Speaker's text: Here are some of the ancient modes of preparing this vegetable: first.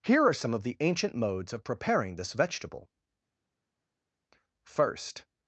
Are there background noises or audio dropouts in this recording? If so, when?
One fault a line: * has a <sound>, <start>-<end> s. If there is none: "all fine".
all fine